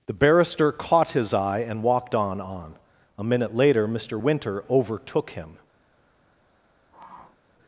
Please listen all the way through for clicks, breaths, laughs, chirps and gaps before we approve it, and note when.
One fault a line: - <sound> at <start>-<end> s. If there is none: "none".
- sniff at 6.9-7.4 s